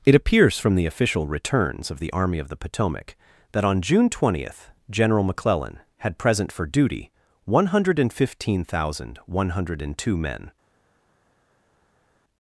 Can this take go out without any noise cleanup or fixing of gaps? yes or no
yes